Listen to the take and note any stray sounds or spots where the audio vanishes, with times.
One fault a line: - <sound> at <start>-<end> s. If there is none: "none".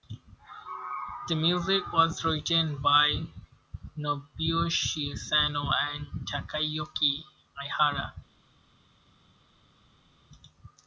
none